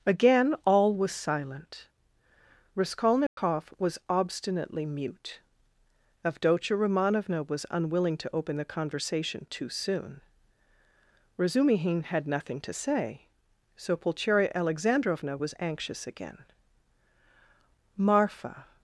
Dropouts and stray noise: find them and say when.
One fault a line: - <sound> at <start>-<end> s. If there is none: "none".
- dropout at 3.3-3.4 s